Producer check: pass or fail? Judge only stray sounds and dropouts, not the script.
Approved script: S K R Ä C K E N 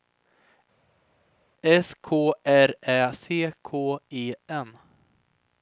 pass